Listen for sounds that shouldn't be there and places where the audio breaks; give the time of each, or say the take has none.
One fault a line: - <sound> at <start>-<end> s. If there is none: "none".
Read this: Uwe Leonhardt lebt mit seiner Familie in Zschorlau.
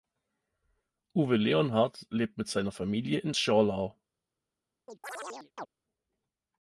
- chirp at 4.9-5.7 s